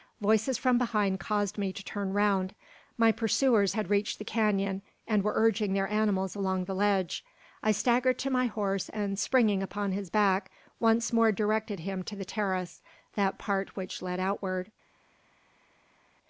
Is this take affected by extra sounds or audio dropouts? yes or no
no